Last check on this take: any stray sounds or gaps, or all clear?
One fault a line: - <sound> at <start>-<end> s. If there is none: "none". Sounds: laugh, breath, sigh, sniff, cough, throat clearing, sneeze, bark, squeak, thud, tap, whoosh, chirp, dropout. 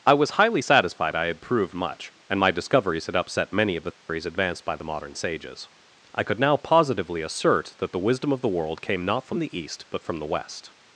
- dropout at 3.9-4.1 s